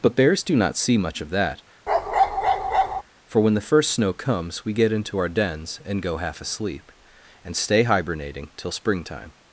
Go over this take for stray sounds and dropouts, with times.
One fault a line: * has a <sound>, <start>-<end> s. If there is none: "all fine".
* has a bark, 1.9-3.0 s